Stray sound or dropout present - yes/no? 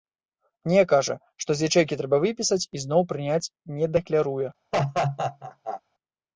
yes